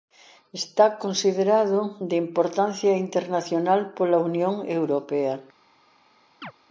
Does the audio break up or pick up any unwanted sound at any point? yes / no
yes